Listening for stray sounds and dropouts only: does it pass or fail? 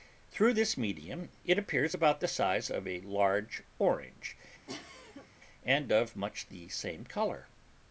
fail